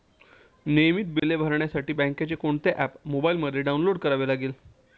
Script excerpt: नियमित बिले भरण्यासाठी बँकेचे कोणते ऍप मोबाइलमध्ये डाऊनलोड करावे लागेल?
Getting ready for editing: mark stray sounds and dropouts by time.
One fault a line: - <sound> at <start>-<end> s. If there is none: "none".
- dropout at 1.2-1.2 s